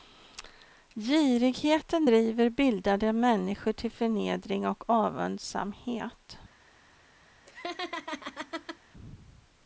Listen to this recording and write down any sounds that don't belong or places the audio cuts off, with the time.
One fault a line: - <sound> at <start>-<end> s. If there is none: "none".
- laugh at 7.5-8.8 s